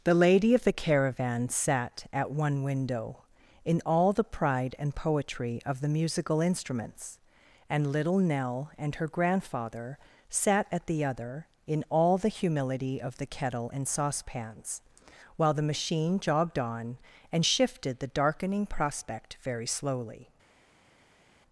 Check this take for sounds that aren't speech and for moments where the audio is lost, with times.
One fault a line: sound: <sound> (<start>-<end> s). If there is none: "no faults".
no faults